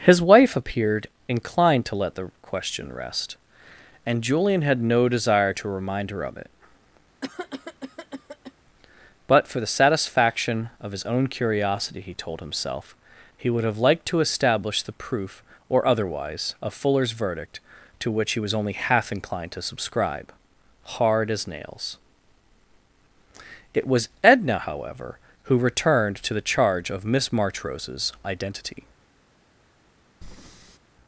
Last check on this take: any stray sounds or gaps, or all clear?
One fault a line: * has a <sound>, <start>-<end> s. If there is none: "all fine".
* has a cough, 7.2-8.5 s
* has a breath, 30.2-30.8 s